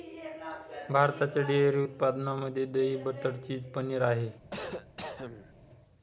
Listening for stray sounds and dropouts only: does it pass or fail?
fail